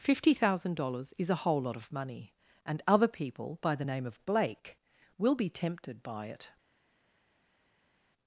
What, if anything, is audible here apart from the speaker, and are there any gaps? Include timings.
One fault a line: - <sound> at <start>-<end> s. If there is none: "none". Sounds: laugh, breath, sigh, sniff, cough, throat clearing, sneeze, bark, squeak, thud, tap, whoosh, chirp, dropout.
none